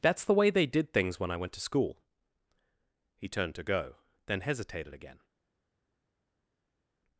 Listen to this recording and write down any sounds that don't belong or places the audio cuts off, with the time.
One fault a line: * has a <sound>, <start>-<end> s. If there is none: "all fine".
all fine